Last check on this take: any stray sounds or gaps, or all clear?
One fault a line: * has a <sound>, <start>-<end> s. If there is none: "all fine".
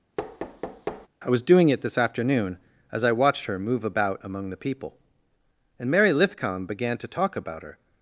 * has a thud, 0.2-1.1 s